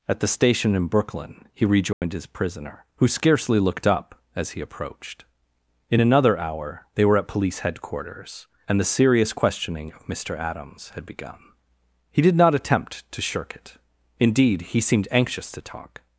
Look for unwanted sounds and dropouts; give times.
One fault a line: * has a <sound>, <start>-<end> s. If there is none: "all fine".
* has a dropout, 1.9-2.0 s